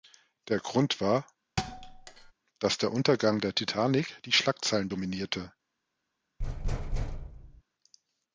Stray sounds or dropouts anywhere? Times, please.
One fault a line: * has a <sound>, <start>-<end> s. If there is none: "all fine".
* has a thud, 1.6-2.3 s
* has a thud, 6.4-7.6 s